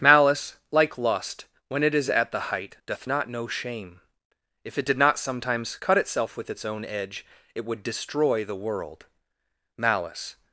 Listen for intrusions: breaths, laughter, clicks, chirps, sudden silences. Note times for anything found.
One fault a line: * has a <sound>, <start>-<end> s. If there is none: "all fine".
all fine